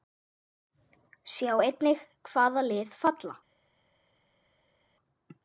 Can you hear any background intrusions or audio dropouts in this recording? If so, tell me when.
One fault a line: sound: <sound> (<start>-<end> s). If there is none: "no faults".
no faults